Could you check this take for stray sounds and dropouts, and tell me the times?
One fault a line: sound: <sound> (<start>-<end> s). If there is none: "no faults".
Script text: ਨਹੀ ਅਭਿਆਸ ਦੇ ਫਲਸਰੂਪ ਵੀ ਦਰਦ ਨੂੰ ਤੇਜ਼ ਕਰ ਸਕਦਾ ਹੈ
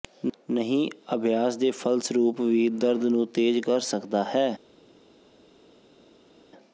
no faults